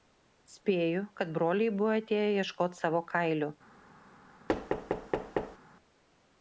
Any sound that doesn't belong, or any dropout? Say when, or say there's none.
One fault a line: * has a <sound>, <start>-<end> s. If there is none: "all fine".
* has a thud, 4.5-5.6 s